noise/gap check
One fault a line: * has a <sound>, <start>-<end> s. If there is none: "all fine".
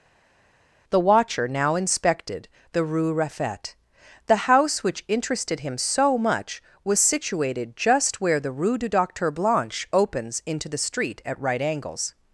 all fine